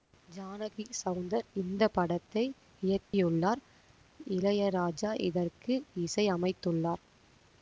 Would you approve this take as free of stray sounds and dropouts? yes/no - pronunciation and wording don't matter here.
no